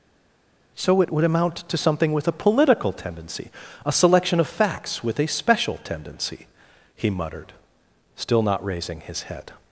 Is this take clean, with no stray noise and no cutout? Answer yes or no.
yes